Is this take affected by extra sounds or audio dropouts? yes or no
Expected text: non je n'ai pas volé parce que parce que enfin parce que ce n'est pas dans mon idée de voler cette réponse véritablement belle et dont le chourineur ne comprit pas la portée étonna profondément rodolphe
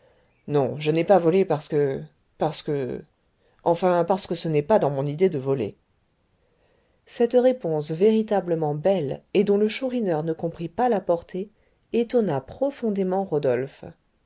no